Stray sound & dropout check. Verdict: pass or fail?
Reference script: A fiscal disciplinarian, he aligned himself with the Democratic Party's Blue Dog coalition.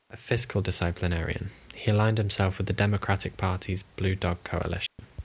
fail